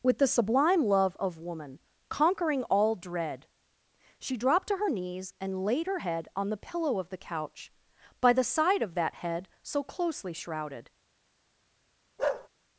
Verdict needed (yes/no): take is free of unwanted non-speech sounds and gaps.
no